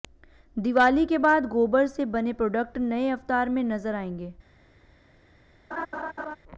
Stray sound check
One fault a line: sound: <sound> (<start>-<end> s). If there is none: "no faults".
sound: laugh (5.7-6.4 s)